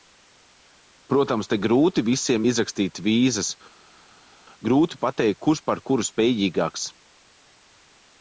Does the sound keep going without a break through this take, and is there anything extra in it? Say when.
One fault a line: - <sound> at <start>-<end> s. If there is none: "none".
none